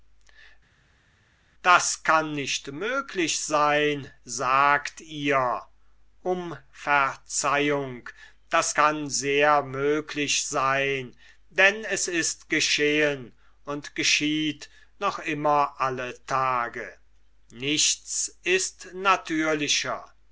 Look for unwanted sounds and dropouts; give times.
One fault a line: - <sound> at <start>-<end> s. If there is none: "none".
none